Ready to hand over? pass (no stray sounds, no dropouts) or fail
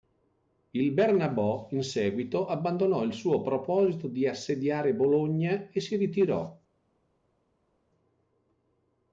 pass